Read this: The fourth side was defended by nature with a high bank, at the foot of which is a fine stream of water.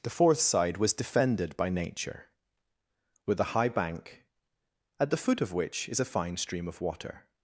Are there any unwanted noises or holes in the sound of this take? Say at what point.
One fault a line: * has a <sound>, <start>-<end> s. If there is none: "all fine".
all fine